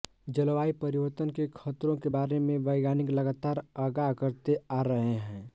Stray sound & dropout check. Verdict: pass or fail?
pass